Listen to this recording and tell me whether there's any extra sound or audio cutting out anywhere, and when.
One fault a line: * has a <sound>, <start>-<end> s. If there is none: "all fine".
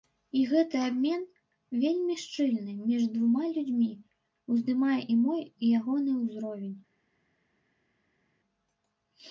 all fine